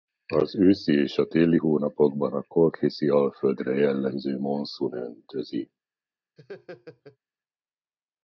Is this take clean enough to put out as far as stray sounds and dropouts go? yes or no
no